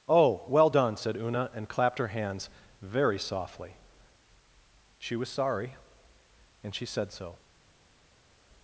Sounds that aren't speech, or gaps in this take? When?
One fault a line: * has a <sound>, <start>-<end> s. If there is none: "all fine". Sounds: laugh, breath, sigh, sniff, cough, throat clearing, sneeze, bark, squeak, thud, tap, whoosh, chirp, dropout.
all fine